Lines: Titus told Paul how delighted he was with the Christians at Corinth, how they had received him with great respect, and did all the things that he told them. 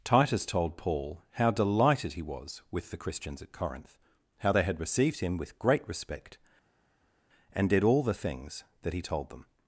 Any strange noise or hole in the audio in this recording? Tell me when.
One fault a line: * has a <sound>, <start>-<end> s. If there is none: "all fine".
all fine